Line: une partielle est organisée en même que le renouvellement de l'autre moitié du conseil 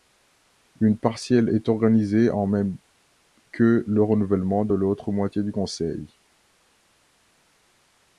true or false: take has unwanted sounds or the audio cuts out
false